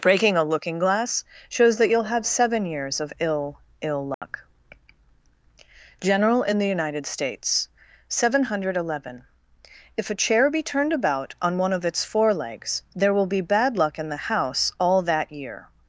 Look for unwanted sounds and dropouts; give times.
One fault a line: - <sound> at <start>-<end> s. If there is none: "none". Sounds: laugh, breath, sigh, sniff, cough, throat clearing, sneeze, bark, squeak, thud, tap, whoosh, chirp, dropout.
- dropout at 4.1-4.2 s